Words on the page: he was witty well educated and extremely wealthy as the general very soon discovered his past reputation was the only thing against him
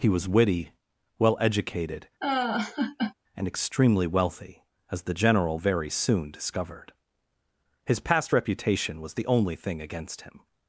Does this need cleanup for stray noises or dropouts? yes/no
yes